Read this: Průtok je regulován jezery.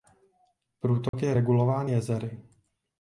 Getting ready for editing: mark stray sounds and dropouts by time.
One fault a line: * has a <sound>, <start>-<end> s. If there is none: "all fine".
* has a dropout, 1.1-1.1 s